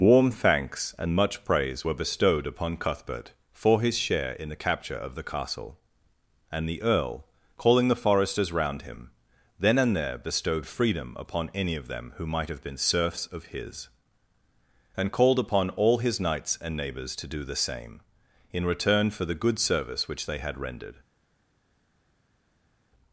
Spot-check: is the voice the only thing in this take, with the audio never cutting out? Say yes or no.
yes